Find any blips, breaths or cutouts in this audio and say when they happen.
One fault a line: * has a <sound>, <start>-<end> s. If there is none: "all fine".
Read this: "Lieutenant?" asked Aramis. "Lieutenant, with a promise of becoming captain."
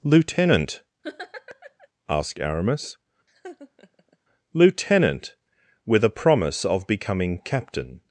* has a laugh, 1.0-1.9 s
* has a laugh, 3.3-4.2 s